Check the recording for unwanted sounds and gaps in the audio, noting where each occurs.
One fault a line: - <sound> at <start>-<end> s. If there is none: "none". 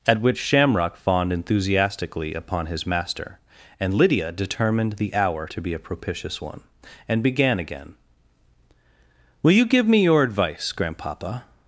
none